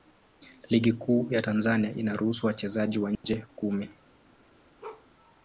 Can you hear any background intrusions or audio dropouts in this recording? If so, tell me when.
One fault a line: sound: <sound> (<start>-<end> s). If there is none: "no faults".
sound: dropout (3.2-3.2 s)
sound: bark (4.8-5.1 s)